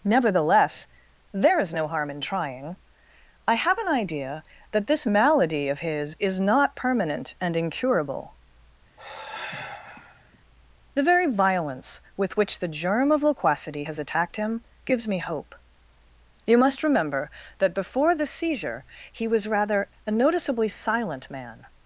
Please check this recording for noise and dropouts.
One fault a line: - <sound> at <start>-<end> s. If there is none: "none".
- sigh at 9.0-10.4 s